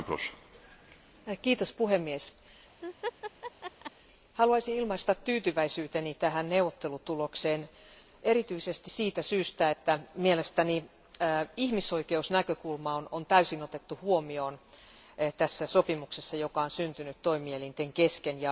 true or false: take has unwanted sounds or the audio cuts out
true